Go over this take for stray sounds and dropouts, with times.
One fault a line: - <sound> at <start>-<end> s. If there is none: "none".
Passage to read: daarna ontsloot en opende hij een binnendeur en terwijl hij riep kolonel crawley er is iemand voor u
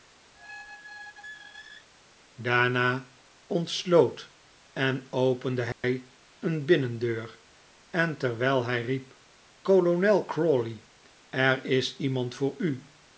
- squeak at 0.3-1.9 s
- dropout at 5.7-5.8 s